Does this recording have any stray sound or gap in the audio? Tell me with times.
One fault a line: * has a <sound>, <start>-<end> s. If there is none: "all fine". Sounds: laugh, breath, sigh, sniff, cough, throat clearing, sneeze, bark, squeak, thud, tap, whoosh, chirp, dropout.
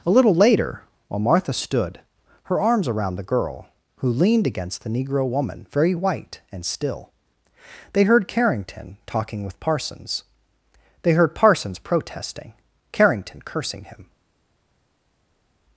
all fine